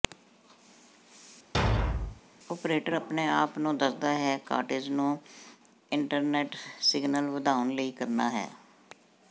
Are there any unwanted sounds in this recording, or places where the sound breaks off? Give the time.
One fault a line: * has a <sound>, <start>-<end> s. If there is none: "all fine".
* has a thud, 1.5-2.2 s